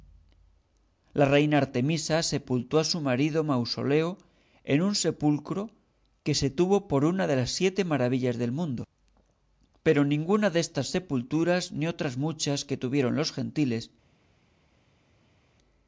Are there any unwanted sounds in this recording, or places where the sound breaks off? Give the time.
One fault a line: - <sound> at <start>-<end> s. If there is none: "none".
none